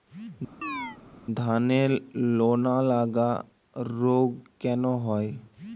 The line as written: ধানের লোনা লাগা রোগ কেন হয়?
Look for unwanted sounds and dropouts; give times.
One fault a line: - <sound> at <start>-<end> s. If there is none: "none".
- chirp at 0.6-1.0 s